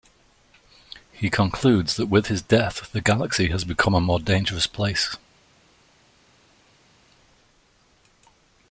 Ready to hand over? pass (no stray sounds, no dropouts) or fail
pass